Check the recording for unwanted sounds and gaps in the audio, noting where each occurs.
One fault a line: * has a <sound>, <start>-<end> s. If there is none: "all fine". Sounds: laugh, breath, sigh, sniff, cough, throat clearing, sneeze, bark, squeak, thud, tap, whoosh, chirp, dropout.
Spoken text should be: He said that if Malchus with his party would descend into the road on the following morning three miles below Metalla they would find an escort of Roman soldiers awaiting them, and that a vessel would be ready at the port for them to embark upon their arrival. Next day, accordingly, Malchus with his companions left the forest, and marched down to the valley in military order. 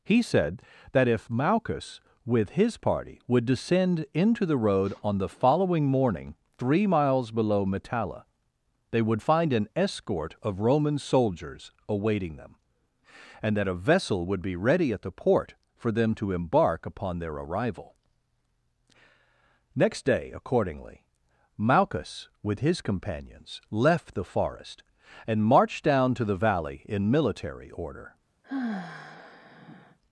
* has a sigh, 28.4-30.0 s